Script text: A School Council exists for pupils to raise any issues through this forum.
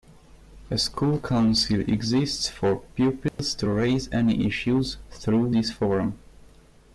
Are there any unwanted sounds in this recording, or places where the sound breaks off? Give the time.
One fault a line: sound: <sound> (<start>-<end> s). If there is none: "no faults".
sound: dropout (3.3-3.4 s)